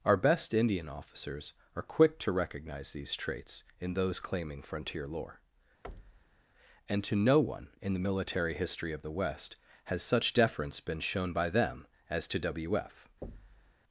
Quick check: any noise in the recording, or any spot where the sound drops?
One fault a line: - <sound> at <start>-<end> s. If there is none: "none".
- thud at 5.8-6.4 s
- thud at 13.2-13.7 s